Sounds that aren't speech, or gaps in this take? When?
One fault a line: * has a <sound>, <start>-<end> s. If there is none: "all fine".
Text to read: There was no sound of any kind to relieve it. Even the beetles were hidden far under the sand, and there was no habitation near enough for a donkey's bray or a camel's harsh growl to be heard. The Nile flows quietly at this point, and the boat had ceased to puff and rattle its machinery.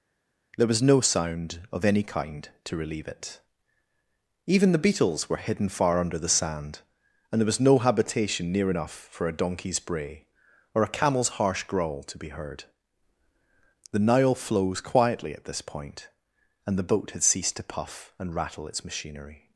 all fine